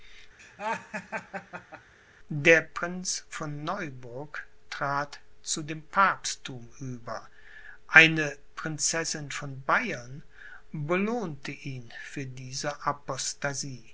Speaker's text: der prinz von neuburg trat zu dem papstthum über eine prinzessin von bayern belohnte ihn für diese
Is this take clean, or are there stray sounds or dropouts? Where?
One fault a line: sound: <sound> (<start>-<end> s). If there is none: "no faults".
sound: laugh (0.4-1.9 s)